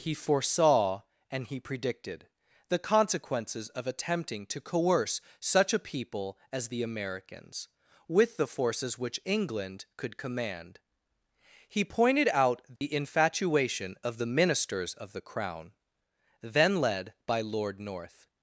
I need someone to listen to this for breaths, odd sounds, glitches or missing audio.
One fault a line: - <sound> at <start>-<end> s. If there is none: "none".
- dropout at 12.8-12.8 s